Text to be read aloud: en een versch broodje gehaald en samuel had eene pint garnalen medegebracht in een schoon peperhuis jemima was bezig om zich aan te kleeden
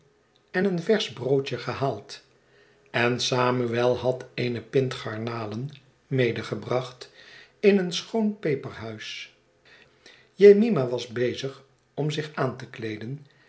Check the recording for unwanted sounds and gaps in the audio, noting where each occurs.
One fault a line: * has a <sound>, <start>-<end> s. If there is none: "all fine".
all fine